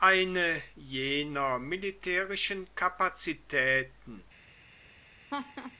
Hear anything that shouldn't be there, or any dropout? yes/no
yes